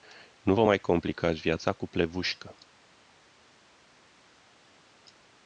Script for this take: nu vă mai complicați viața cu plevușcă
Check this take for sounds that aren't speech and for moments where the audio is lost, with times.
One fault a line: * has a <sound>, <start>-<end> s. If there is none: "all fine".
all fine